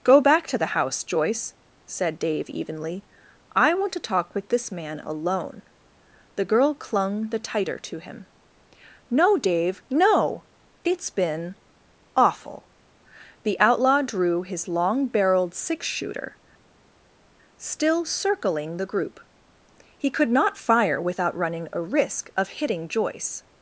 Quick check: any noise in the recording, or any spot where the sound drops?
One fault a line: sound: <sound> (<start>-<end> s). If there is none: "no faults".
no faults